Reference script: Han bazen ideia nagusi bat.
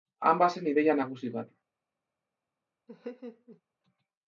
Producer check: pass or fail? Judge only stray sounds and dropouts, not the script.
fail